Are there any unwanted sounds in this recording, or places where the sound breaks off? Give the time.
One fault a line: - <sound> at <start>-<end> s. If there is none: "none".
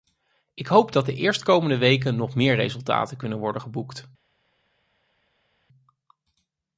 none